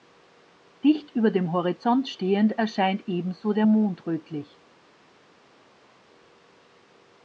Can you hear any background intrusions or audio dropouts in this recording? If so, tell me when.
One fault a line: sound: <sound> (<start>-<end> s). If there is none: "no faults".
no faults